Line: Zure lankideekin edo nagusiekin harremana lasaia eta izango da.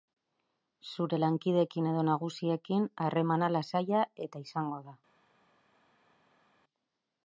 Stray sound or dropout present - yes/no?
no